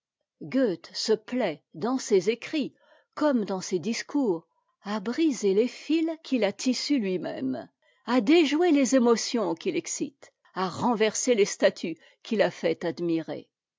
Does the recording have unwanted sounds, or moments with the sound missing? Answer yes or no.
no